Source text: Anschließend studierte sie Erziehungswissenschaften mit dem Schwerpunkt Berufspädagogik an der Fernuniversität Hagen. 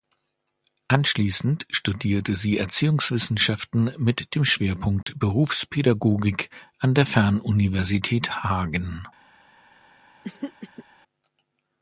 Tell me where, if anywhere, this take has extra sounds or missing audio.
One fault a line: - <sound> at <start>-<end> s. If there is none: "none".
- dropout at 5.0-5.1 s
- throat clearing at 10.2-10.8 s